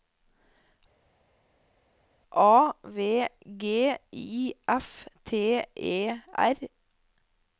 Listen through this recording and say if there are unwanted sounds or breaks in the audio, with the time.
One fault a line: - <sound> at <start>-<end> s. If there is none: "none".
none